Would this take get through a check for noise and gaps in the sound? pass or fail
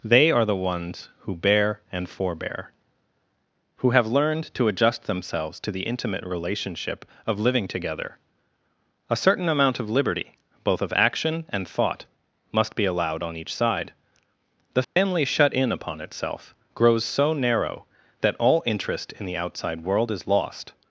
fail